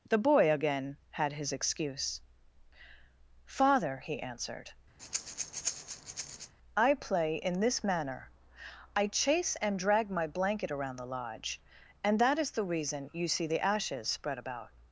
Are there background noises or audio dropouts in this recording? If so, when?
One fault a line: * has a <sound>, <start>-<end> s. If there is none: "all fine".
* has a breath, 5.0-6.5 s